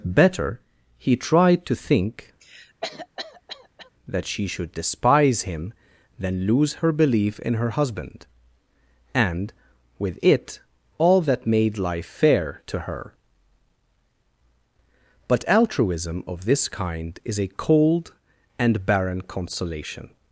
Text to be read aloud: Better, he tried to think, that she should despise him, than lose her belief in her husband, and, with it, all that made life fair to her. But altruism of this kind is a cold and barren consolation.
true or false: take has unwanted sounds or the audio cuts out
true